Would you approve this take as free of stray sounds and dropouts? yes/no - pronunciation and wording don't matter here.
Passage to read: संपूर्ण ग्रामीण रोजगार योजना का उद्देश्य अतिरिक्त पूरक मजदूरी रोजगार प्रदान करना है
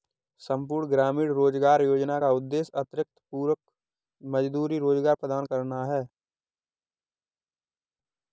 yes